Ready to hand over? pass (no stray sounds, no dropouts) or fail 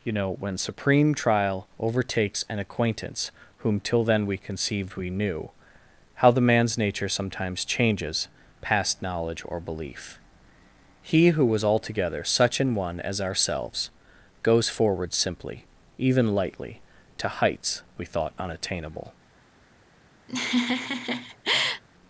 fail